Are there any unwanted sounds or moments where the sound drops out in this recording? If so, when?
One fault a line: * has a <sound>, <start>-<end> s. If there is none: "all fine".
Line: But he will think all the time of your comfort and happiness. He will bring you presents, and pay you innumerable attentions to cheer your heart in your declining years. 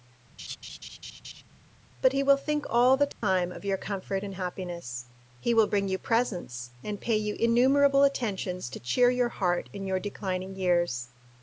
* has a laugh, 0.4-1.4 s
* has a dropout, 3.1-3.2 s